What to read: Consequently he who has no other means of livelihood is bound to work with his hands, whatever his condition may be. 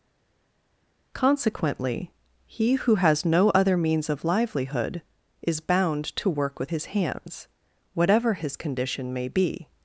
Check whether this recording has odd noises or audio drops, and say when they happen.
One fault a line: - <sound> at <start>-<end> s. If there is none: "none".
none